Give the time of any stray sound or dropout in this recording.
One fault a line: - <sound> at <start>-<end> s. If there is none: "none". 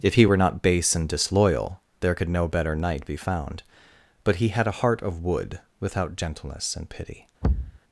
- thud at 7.4-7.8 s